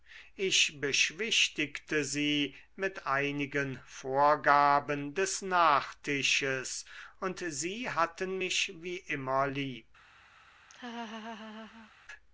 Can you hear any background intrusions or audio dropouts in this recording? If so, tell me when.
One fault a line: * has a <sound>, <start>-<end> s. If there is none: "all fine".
* has a laugh, 10.7-11.9 s